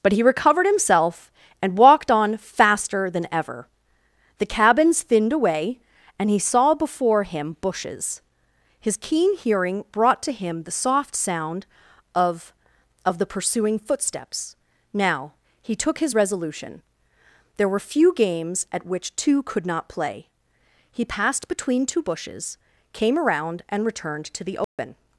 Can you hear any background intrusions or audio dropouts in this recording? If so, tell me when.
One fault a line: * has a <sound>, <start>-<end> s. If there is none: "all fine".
* has a dropout, 24.6-24.8 s